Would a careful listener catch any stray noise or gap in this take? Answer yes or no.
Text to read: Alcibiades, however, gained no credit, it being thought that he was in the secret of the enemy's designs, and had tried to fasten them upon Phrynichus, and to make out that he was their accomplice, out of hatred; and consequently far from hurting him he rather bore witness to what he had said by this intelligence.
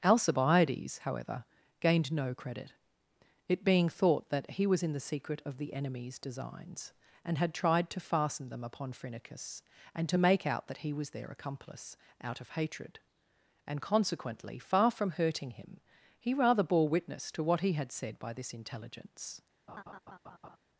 yes